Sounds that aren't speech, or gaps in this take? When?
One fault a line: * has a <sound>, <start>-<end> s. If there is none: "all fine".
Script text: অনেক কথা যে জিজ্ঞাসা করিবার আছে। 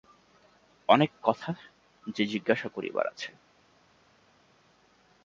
all fine